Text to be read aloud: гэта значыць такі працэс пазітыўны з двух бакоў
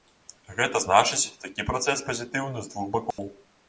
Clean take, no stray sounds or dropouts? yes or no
no